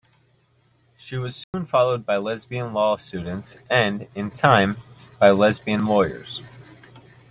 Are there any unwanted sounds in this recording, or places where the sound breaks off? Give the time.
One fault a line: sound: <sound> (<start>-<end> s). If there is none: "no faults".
sound: dropout (1.4-1.5 s)